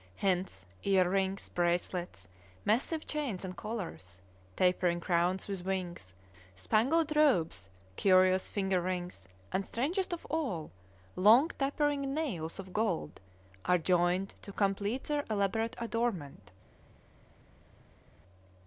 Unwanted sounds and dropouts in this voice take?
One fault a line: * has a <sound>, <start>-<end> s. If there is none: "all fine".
all fine